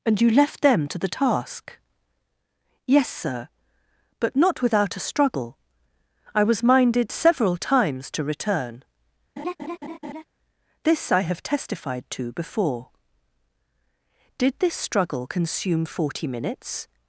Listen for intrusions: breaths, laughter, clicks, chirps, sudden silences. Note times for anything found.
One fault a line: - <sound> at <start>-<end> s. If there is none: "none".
- laugh at 9.4-10.2 s